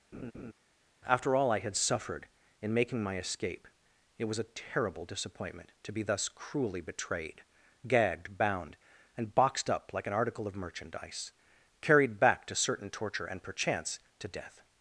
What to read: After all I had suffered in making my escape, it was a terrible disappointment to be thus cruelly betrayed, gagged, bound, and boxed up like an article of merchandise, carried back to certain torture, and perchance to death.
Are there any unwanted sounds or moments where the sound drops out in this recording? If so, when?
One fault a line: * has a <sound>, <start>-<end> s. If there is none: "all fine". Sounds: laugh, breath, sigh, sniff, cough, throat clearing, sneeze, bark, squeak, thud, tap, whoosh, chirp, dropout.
* has a laugh, 0.1-0.5 s